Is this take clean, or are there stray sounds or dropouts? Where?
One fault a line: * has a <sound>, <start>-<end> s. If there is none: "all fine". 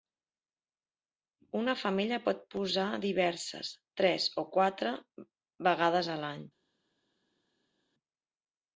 all fine